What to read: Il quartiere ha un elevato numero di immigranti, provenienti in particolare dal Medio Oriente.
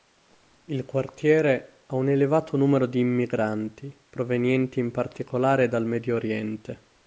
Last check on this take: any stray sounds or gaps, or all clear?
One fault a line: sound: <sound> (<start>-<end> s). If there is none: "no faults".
no faults